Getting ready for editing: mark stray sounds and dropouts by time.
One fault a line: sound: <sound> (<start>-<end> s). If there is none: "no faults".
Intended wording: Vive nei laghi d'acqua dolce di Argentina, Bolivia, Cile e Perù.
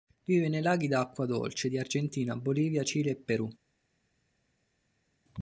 no faults